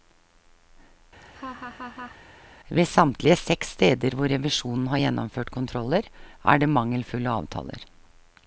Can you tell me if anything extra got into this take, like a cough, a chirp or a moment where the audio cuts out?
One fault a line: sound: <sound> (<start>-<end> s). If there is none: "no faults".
sound: laugh (1.2-2.2 s)